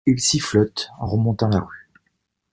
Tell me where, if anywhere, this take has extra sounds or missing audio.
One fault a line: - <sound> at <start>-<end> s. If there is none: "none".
none